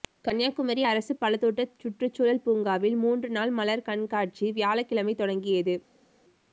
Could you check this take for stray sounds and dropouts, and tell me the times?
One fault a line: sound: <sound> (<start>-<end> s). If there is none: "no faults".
no faults